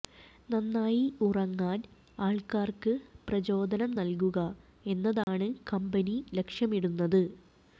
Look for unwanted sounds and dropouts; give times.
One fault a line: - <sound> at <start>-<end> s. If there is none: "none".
- dropout at 5.2-5.3 s